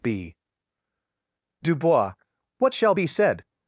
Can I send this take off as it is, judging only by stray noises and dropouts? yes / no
yes